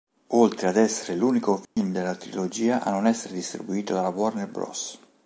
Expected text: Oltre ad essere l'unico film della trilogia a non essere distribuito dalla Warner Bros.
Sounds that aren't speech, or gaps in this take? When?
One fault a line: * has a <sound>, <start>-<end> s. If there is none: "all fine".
* has a dropout, 1.6-1.8 s